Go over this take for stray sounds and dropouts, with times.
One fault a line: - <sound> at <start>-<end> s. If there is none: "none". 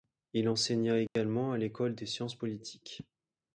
- dropout at 1.1-1.2 s